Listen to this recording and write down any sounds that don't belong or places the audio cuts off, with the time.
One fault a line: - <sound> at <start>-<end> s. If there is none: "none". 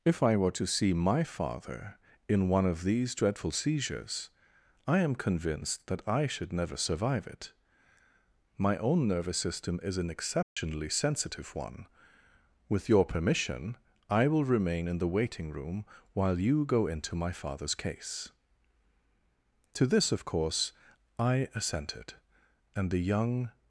- dropout at 10.4-10.6 s